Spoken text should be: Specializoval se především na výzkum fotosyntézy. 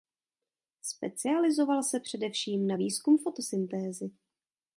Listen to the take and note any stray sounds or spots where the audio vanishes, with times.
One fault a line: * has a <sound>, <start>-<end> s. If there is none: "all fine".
all fine